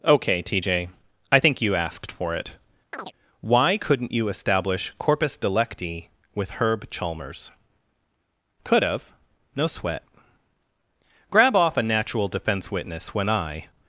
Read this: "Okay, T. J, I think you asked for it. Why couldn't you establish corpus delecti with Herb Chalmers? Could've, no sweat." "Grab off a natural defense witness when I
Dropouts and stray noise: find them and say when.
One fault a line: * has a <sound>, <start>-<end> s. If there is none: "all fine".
* has a chirp, 2.9-3.1 s